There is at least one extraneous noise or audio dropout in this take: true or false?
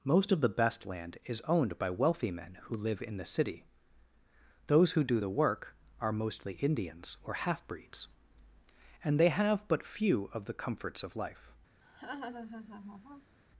true